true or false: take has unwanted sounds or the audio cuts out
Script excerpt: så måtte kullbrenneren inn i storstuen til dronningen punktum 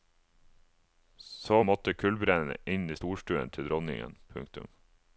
false